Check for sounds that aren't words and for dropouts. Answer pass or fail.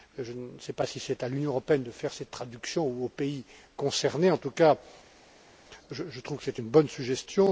pass